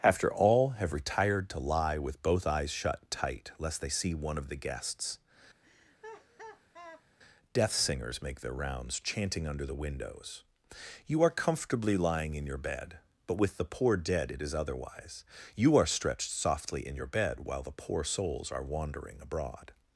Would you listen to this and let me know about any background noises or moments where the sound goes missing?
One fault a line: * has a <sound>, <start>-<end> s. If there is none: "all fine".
* has a laugh, 5.6-7.1 s